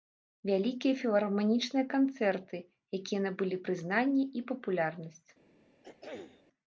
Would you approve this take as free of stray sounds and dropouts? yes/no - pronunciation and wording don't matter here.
no